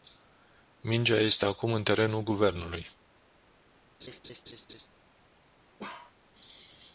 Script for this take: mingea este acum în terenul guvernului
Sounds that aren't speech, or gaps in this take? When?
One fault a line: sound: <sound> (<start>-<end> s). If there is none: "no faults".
sound: laugh (4.0-4.9 s)
sound: bark (5.8-6.2 s)